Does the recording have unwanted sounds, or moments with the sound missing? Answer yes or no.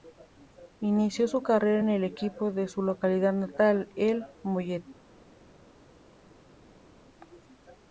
no